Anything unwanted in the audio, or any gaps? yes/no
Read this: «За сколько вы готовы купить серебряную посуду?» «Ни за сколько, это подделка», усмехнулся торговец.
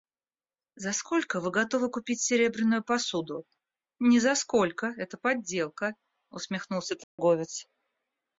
yes